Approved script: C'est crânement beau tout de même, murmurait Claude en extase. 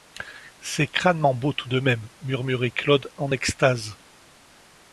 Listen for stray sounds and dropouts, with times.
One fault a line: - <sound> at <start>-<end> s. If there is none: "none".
none